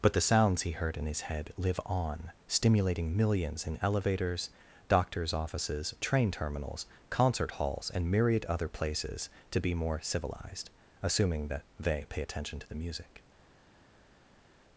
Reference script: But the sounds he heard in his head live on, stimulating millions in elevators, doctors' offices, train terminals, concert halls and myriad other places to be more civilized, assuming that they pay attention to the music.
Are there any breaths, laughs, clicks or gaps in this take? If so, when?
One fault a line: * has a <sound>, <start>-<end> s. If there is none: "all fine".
all fine